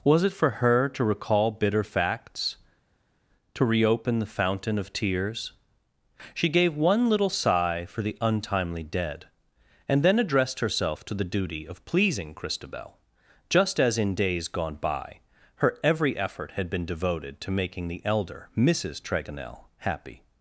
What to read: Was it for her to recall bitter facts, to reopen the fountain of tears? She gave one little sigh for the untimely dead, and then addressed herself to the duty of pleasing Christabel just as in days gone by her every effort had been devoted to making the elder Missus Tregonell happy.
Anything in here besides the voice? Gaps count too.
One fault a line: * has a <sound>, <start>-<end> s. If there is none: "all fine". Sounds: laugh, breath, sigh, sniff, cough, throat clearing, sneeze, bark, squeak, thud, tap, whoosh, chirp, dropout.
all fine